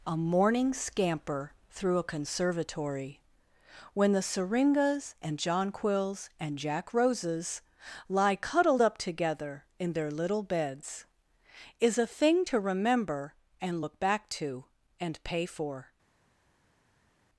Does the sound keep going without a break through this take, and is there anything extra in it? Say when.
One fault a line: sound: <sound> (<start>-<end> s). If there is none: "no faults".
no faults